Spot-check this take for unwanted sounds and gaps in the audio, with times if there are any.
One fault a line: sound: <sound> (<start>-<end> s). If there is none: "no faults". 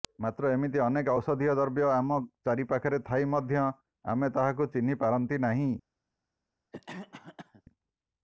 sound: cough (6.7-7.6 s)